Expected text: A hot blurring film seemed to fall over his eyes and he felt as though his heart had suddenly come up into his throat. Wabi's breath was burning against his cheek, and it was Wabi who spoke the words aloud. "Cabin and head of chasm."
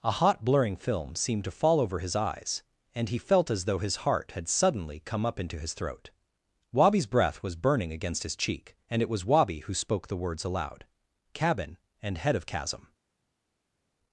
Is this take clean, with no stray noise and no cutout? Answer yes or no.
yes